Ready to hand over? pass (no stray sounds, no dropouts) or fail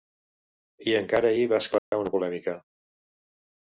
fail